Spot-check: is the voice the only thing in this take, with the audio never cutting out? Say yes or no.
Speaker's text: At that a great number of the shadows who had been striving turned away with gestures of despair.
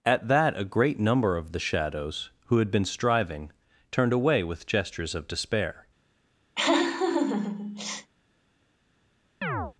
no